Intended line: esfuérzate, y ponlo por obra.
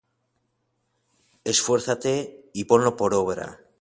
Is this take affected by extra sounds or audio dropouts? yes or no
no